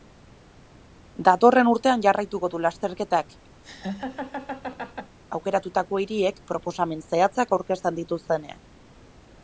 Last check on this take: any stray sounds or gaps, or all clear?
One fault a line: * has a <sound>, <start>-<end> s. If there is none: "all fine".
* has a laugh, 3.6-5.2 s